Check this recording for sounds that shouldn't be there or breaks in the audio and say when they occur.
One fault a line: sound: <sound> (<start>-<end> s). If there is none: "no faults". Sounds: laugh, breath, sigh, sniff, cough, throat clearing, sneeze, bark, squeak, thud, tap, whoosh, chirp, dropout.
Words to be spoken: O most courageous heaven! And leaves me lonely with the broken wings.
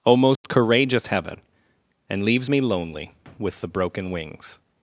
sound: dropout (0.4-0.4 s)